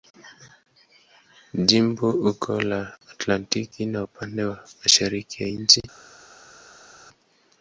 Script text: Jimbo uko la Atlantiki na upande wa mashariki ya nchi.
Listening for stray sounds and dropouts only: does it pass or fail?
pass